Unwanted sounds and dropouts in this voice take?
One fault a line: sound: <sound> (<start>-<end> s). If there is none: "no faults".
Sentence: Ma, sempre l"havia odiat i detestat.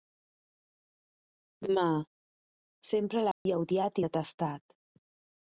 sound: dropout (3.3-3.5 s)